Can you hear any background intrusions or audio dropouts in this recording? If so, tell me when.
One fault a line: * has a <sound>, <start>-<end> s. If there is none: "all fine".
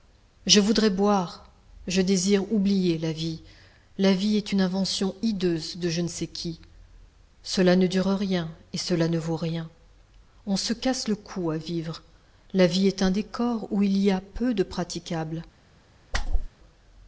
* has a whoosh, 16.1-16.5 s